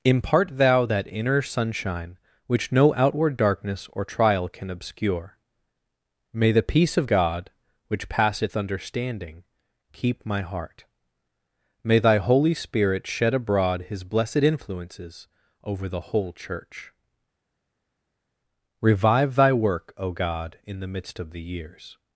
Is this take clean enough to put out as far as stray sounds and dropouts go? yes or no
yes